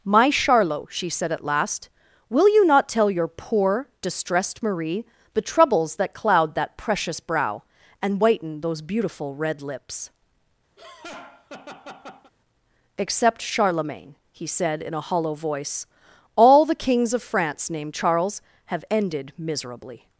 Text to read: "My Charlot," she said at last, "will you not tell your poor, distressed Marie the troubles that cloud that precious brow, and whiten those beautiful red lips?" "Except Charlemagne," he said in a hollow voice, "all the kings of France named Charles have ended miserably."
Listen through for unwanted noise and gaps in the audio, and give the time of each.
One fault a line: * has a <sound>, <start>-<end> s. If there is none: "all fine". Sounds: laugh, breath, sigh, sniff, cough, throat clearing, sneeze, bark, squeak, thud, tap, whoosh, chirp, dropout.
* has a laugh, 10.8-12.3 s